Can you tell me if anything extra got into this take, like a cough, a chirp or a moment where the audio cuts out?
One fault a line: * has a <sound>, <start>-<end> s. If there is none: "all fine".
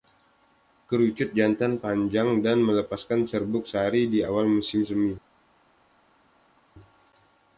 all fine